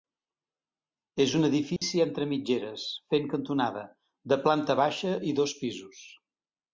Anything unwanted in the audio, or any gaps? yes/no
yes